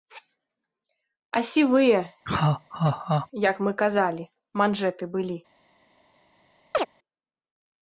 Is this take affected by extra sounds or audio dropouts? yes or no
yes